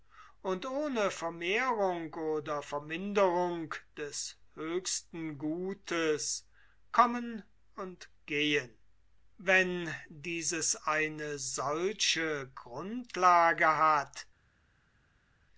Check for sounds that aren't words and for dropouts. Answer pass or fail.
pass